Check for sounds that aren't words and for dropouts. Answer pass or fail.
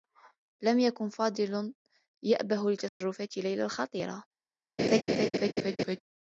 fail